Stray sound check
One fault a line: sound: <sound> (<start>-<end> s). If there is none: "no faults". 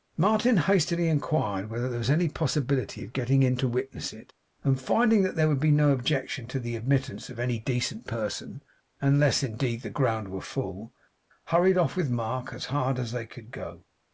no faults